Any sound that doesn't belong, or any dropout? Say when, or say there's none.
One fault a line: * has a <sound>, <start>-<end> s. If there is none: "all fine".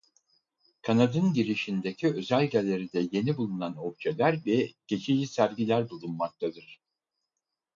all fine